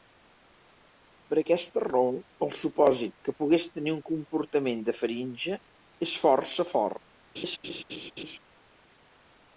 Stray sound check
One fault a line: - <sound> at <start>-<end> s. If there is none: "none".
- laugh at 7.3-8.4 s